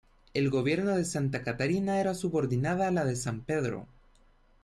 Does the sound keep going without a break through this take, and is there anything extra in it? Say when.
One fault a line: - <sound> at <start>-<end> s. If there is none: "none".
none